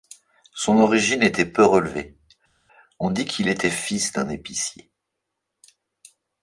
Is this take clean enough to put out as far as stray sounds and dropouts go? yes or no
yes